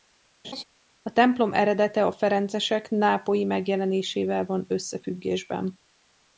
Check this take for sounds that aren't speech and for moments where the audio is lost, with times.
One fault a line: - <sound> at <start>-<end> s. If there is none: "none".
- laugh at 0.4-0.6 s